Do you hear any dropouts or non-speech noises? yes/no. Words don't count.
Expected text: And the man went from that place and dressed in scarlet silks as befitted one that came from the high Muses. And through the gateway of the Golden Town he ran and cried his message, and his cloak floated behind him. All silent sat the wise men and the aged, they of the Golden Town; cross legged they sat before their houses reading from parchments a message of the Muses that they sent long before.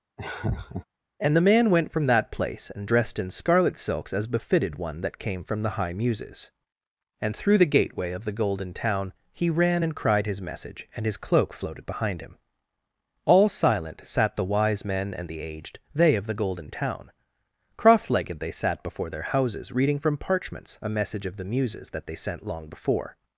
yes